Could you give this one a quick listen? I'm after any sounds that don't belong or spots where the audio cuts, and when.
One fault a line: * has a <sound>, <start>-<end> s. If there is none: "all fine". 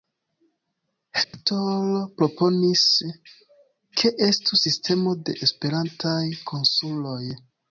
* has a dropout, 1.2-1.3 s